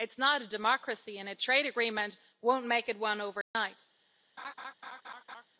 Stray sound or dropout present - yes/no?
yes